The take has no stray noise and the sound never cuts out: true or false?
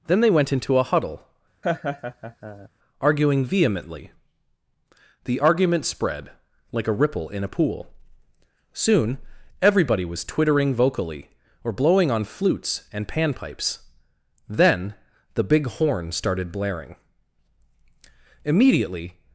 false